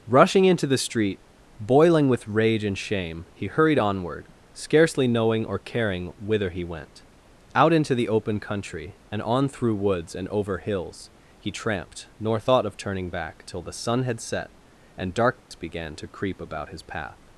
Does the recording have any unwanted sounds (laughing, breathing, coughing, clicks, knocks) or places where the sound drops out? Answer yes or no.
yes